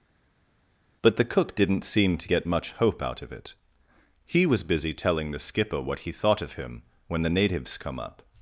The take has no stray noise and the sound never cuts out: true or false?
true